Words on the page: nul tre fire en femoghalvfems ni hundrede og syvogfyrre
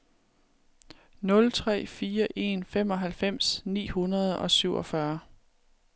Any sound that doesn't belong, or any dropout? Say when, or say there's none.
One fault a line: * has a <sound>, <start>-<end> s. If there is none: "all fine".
all fine